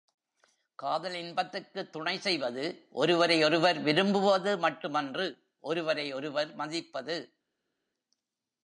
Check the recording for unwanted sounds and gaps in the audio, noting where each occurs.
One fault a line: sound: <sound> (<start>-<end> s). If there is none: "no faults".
no faults